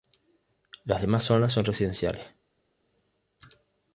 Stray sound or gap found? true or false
false